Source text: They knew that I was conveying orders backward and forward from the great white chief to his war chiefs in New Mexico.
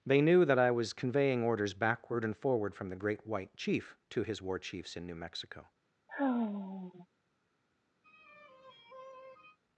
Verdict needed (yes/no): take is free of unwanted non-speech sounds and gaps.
no